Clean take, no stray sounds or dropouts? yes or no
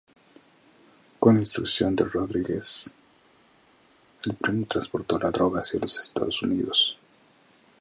yes